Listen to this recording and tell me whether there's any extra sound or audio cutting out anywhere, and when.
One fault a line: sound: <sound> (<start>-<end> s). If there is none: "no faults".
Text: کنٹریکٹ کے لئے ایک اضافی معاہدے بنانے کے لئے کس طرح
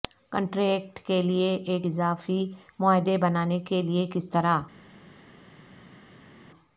no faults